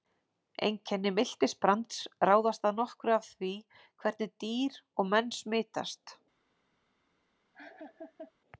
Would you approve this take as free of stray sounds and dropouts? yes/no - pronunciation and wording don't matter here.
no